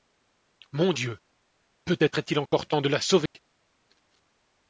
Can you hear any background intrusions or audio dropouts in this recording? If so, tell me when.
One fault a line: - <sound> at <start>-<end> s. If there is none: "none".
- dropout at 2.5-2.5 s
- dropout at 3.3-3.3 s